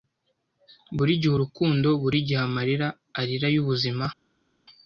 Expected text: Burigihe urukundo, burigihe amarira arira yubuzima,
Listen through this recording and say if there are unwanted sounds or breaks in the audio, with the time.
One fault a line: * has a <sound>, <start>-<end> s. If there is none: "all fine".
all fine